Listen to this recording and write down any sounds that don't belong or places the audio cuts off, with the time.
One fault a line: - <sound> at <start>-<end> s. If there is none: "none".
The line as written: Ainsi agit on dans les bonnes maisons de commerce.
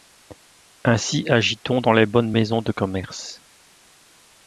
none